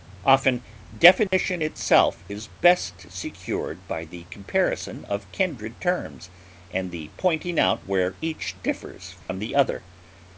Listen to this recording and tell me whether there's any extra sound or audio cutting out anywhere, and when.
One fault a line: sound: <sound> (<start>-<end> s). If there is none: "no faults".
sound: dropout (1.3-1.3 s)
sound: dropout (9.2-9.3 s)